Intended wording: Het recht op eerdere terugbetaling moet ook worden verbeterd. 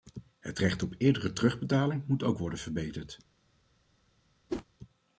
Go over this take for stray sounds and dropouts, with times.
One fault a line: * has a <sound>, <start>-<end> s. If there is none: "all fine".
* has a whoosh, 4.5-4.7 s